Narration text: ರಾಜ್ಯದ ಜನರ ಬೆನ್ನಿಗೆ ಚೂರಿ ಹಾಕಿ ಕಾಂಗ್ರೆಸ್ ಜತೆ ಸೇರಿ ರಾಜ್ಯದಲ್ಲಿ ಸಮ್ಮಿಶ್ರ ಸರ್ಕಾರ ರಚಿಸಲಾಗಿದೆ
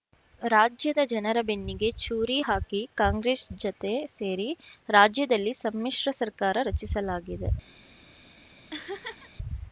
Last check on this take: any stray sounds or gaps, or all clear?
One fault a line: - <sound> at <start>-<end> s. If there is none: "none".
- laugh at 8.7-9.3 s